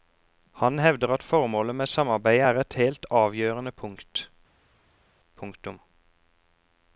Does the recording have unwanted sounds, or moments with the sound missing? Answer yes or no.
no